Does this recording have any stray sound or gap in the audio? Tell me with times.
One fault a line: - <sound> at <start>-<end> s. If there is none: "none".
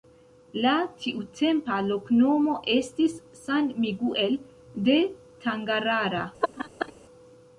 - laugh at 6.4-6.9 s